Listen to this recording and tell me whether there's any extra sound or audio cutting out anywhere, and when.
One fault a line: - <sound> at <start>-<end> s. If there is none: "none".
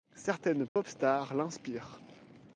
- dropout at 0.7-0.8 s